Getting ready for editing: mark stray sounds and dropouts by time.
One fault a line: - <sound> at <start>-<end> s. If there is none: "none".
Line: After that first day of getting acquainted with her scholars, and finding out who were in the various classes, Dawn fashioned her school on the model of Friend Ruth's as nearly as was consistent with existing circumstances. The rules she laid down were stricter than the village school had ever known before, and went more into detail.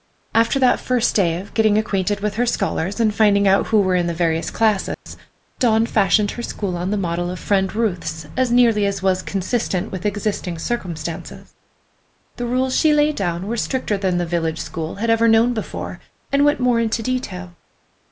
- dropout at 4.9-5.1 s